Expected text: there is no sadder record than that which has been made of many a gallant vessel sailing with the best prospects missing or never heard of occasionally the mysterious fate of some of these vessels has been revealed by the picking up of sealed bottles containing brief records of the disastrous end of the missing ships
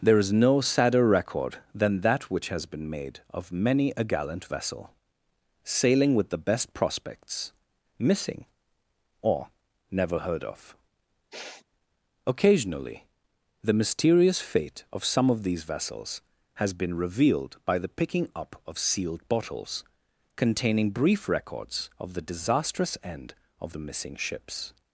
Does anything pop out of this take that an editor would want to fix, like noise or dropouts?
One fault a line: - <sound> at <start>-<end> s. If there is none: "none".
- sniff at 11.3-11.6 s